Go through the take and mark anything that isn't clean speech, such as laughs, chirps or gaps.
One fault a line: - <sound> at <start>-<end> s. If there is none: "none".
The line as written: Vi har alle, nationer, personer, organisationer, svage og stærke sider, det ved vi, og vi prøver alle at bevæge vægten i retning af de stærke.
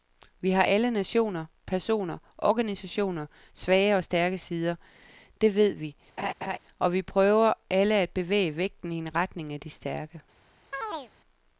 - laugh at 6.2-6.6 s
- chirp at 10.7-11.1 s